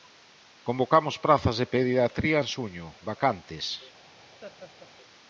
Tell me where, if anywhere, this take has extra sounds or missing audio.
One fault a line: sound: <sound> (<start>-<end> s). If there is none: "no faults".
sound: laugh (4.4-4.9 s)